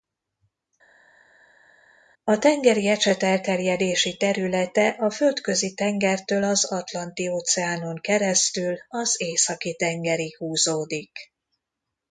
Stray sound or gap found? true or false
false